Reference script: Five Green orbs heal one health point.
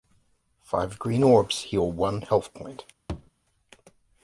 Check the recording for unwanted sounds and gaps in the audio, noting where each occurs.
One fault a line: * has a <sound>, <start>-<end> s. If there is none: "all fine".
* has a thud, 3.1-3.3 s